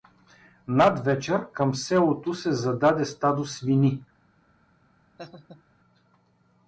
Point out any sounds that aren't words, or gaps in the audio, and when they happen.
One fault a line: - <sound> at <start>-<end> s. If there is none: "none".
- laugh at 5.2-5.6 s